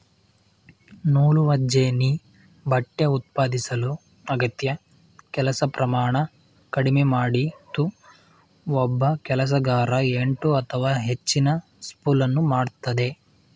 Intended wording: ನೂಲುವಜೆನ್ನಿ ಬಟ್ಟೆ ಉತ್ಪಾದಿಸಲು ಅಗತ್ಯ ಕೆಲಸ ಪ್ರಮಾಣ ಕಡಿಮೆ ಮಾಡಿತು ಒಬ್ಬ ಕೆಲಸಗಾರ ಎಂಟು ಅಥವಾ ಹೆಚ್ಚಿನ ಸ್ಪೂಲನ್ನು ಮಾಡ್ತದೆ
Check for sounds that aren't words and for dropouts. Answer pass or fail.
pass